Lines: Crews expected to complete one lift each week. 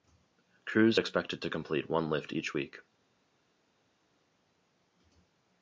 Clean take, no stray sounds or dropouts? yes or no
yes